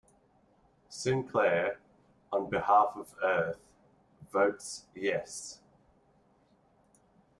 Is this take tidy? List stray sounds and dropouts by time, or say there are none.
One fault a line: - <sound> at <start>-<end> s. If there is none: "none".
none